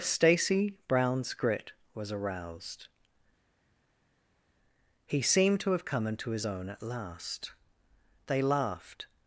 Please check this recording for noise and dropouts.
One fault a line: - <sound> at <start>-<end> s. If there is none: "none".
none